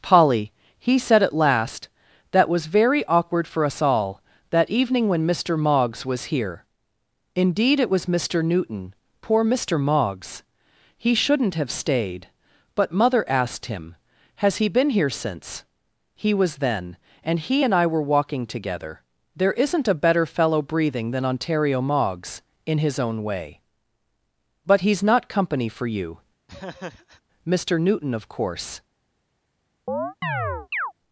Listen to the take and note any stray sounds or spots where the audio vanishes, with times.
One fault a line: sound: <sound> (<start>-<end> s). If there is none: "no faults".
sound: laugh (26.5-27.2 s)
sound: chirp (29.9-30.9 s)